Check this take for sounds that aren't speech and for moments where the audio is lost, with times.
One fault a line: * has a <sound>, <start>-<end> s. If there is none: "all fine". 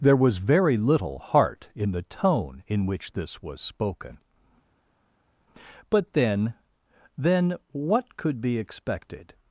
all fine